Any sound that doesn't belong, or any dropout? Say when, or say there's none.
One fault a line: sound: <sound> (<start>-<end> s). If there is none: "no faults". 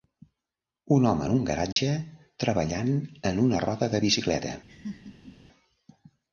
sound: dropout (1.7-1.8 s)
sound: laugh (4.7-5.4 s)